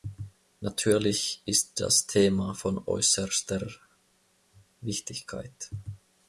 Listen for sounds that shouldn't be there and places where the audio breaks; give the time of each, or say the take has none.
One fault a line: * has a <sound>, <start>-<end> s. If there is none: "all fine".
all fine